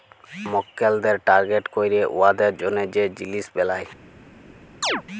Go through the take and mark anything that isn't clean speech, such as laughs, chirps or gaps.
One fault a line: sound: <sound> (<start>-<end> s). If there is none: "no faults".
sound: chirp (4.8-5.0 s)